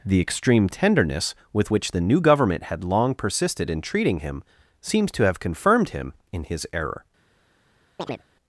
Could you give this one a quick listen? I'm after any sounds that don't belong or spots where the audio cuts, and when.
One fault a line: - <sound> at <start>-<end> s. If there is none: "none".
- chirp at 8.0-8.2 s